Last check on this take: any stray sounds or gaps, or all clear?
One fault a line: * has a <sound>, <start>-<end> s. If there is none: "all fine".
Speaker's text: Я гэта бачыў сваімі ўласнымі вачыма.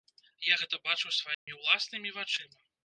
* has a dropout, 1.3-1.5 s